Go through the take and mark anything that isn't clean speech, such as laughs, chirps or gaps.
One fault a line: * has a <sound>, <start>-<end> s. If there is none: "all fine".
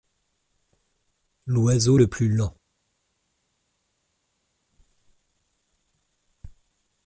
all fine